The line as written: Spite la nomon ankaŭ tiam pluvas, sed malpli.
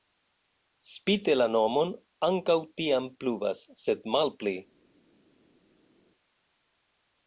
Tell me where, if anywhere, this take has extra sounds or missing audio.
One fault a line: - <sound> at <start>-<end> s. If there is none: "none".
none